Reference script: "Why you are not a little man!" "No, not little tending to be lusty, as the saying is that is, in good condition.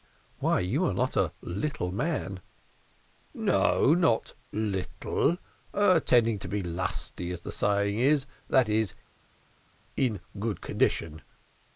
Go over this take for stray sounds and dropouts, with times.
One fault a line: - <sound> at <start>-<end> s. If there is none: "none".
none